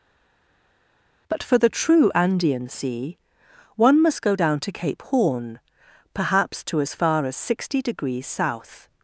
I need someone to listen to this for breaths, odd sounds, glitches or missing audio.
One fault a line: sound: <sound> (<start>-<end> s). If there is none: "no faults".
no faults